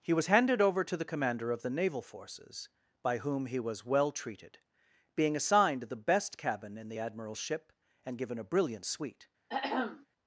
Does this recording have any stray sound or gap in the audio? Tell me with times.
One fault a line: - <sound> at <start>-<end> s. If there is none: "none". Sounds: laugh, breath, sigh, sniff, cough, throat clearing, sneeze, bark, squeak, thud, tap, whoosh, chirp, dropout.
- throat clearing at 9.5-10.1 s